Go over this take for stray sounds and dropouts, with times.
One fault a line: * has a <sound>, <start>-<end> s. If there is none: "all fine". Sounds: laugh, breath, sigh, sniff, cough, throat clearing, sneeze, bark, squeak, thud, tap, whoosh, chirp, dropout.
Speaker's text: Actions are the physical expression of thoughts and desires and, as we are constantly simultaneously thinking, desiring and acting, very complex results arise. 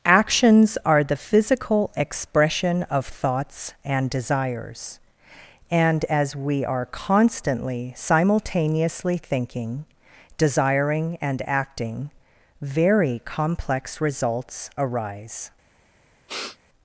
* has a sniff, 16.3-16.6 s